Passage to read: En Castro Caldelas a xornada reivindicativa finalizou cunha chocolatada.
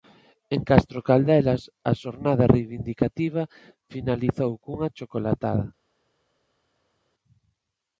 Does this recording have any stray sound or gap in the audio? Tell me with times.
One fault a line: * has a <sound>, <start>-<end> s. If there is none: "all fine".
all fine